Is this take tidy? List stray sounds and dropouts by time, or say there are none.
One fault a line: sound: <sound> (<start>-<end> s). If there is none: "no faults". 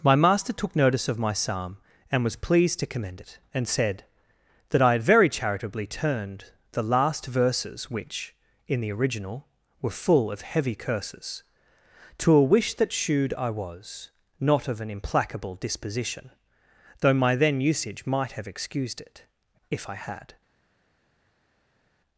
no faults